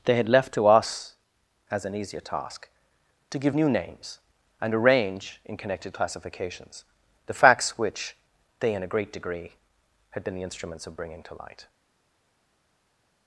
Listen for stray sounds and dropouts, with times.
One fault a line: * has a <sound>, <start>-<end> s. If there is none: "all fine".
all fine